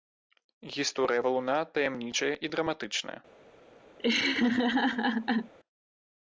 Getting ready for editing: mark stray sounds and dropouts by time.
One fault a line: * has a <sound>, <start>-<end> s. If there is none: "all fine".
* has a laugh, 4.0-5.5 s